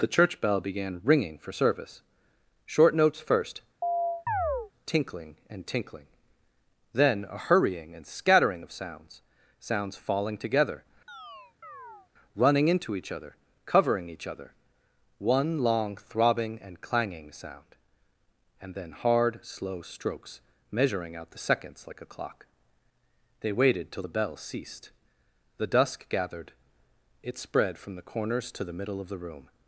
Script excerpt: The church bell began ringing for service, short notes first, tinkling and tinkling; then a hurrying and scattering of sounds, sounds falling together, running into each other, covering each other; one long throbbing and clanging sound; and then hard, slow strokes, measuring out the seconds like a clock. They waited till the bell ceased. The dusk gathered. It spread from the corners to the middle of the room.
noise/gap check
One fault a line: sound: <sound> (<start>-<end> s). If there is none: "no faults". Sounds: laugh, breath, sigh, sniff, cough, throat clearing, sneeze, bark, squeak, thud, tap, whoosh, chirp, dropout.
sound: chirp (3.8-4.7 s)
sound: chirp (11.1-12.1 s)